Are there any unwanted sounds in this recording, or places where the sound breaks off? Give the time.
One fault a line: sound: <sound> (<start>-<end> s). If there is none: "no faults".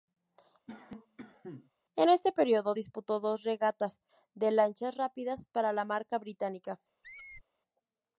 sound: cough (0.7-1.7 s)
sound: squeak (7.0-7.4 s)